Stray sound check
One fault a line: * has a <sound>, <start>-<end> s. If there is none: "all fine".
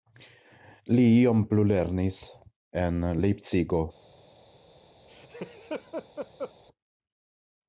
* has a laugh, 5.1-6.5 s